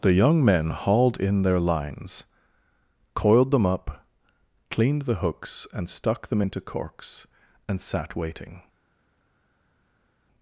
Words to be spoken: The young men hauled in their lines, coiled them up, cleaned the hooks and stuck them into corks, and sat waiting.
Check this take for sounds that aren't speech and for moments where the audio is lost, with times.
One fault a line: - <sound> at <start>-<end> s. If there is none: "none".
none